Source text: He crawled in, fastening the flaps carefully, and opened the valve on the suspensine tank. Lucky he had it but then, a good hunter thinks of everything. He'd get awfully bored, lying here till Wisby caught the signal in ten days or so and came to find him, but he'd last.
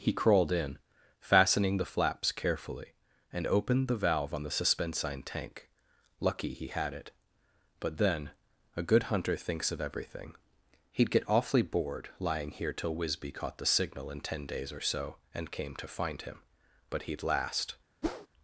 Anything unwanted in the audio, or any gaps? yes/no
yes